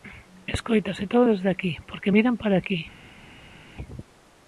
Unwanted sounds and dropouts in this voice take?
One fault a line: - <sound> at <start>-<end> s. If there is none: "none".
none